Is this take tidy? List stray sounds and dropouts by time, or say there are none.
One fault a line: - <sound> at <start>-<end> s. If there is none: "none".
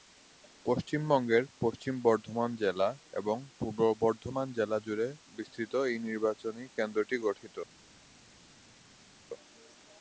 none